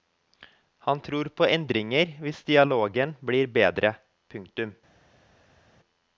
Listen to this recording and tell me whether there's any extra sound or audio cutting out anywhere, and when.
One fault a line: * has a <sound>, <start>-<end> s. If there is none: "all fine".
all fine